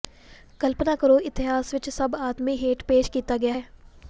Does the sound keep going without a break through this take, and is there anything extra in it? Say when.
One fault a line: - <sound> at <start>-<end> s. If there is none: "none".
none